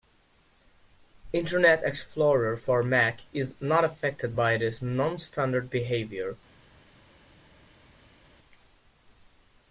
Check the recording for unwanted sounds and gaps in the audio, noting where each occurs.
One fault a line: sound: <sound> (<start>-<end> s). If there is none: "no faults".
no faults